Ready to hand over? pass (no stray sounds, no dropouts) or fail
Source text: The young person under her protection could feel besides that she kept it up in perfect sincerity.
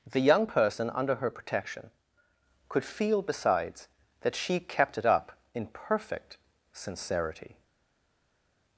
pass